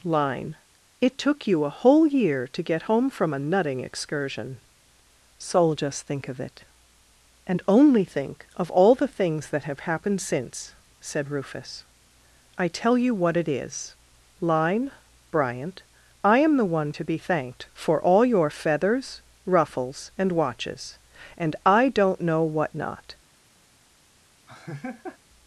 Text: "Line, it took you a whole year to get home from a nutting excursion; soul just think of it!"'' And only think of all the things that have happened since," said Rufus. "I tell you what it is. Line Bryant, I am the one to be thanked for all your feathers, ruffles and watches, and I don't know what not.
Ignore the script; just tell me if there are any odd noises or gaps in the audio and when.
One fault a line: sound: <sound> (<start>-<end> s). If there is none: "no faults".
sound: laugh (24.5-25.2 s)